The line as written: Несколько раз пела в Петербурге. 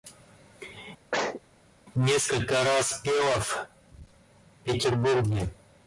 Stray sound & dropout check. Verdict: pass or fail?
fail